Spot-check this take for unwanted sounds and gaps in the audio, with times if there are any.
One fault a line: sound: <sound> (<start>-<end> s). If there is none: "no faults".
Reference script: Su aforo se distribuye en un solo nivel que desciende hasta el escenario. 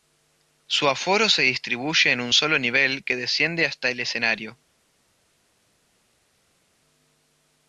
no faults